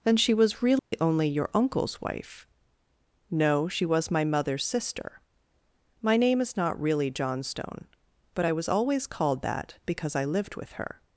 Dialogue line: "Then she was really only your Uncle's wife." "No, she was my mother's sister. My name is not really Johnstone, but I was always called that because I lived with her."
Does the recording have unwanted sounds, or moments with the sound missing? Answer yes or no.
yes